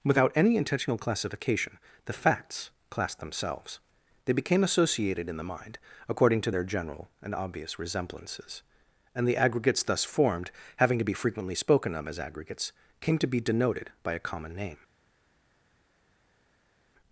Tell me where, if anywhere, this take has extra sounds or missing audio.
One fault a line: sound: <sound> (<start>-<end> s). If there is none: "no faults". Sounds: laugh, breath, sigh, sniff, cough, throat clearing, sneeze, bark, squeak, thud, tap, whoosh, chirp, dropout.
no faults